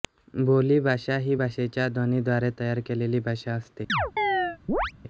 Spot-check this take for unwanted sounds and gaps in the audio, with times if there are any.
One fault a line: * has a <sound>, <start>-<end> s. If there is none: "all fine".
* has a chirp, 3.9-4.9 s